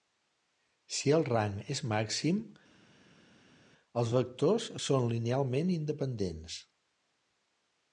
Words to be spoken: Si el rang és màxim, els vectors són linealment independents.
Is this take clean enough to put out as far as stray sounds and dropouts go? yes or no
yes